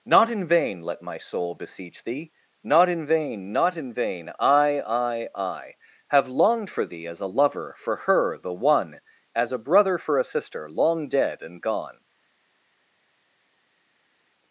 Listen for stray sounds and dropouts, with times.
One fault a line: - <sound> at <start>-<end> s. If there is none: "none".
none